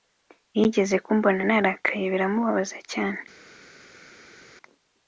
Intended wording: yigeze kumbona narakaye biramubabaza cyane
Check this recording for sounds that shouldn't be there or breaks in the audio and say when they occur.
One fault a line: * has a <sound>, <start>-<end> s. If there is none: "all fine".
all fine